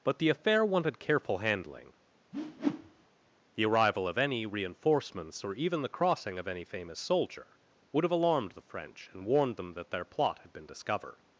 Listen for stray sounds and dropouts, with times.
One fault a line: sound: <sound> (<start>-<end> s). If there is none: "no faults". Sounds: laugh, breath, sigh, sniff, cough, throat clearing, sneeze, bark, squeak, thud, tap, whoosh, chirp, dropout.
sound: whoosh (2.3-3.1 s)